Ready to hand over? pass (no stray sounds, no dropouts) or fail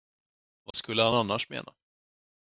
fail